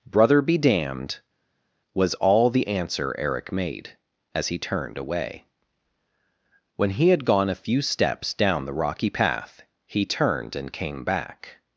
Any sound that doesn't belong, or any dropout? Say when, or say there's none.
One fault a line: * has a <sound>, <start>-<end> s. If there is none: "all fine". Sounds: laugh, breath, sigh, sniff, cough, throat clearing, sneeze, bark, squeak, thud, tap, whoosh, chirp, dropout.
all fine